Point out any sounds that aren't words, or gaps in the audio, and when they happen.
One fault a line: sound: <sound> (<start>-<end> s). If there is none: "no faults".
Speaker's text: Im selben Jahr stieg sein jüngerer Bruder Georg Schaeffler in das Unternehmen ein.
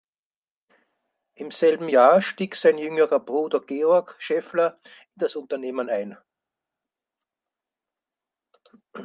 no faults